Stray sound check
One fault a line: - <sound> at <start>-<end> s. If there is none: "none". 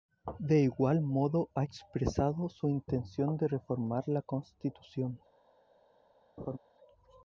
- laugh at 6.4-6.6 s